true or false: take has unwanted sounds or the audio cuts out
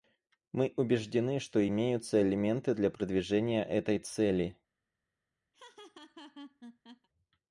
true